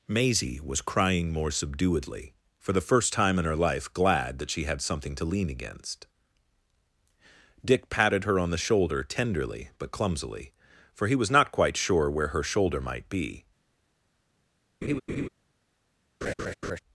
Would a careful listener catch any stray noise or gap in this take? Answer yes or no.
yes